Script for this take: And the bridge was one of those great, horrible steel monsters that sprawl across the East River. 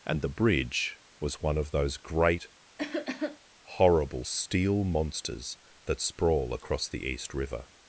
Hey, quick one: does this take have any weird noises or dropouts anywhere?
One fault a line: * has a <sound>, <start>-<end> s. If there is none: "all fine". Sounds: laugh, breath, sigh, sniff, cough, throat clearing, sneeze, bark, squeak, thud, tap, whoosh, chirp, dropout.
* has a cough, 2.8-3.4 s